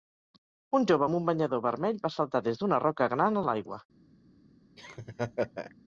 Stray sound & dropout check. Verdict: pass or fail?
fail